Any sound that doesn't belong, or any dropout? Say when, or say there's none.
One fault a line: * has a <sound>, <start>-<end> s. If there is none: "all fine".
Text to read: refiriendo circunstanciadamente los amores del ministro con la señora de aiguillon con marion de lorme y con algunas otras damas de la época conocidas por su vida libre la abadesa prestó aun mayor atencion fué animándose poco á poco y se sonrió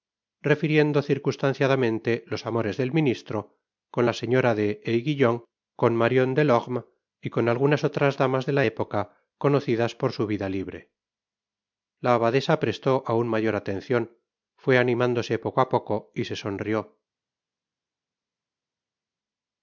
all fine